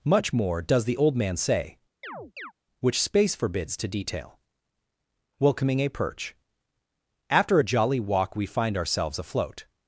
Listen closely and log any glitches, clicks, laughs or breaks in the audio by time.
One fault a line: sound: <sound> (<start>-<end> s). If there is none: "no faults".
sound: chirp (2.0-2.5 s)